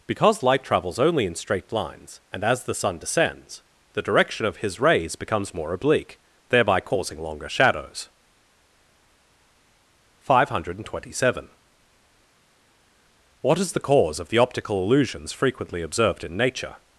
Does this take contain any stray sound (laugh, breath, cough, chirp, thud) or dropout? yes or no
no